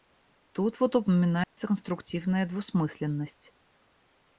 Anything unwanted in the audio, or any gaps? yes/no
yes